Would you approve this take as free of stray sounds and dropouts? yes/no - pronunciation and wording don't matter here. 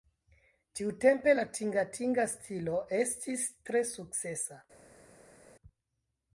yes